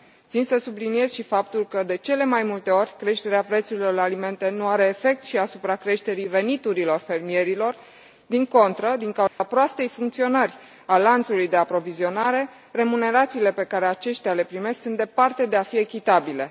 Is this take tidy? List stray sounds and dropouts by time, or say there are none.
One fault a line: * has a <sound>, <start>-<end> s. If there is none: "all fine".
* has a dropout, 9.3-9.4 s